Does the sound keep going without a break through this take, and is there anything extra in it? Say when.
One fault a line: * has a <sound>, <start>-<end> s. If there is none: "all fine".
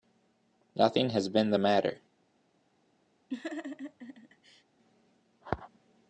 * has a laugh, 3.3-4.6 s